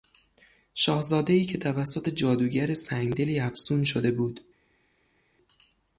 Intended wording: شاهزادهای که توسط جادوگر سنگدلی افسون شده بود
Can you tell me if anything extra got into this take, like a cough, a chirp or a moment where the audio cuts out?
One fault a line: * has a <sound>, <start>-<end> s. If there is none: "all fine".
all fine